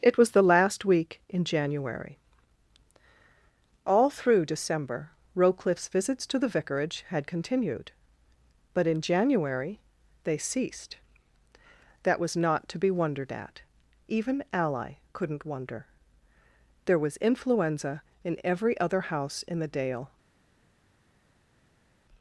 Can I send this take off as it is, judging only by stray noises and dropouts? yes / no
yes